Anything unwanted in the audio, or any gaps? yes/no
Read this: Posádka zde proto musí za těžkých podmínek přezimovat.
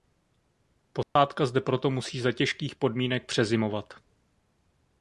yes